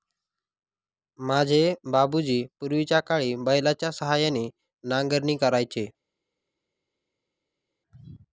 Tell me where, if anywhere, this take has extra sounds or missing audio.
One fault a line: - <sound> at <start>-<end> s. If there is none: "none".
none